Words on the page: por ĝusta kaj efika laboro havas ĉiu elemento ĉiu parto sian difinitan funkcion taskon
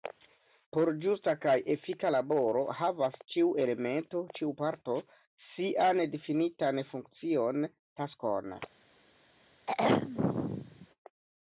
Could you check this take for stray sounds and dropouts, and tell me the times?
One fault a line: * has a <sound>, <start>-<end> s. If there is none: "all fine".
* has a throat clearing, 9.7-10.9 s